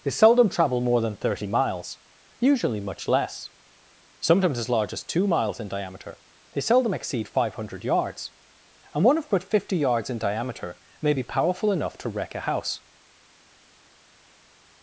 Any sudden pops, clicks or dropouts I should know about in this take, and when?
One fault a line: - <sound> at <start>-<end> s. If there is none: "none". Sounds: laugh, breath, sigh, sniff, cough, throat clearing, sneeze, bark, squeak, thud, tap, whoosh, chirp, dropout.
none